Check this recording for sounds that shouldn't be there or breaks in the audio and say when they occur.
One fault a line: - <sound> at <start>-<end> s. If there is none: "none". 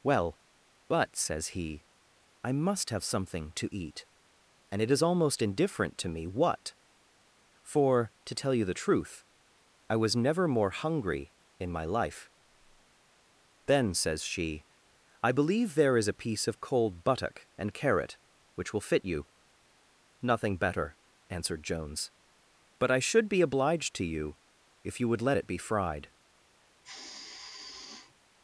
- sigh at 26.8-28.1 s